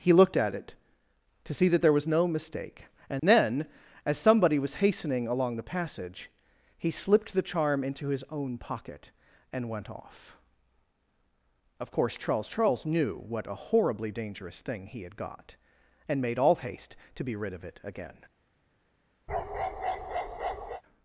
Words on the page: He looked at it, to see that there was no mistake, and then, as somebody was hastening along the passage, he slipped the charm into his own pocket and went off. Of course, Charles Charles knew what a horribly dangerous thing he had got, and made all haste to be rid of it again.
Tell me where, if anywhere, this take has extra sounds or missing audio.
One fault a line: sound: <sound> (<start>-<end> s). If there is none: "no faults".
sound: dropout (3.2-3.2 s)
sound: bark (19.3-20.8 s)